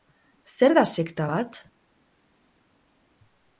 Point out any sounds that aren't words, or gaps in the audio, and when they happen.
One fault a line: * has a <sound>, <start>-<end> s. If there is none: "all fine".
all fine